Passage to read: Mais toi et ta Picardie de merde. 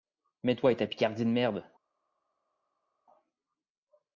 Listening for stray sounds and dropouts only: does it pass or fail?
pass